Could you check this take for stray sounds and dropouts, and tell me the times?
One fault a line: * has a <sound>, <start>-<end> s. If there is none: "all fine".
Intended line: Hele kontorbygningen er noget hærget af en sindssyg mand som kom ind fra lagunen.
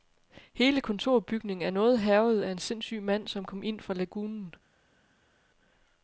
all fine